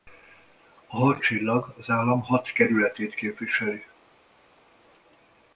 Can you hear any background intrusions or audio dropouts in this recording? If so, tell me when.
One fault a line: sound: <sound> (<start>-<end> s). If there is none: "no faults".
no faults